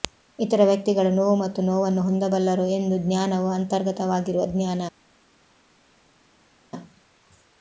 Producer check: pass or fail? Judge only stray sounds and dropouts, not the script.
pass